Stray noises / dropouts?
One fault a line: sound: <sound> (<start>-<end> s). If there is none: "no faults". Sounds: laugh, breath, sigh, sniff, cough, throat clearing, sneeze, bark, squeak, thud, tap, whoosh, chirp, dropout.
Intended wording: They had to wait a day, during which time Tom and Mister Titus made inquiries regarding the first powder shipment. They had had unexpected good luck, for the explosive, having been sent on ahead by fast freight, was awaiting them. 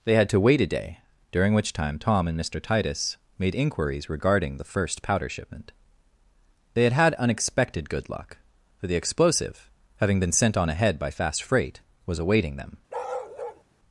sound: bark (12.9-13.6 s)